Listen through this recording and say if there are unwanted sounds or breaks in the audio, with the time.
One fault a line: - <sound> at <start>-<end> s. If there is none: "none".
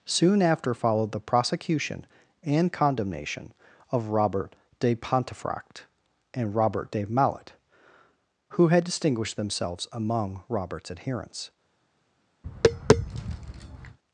- tap at 12.4-14.0 s